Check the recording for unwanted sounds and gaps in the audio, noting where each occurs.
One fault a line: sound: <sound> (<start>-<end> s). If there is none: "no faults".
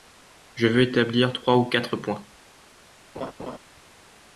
sound: laugh (3.1-3.6 s)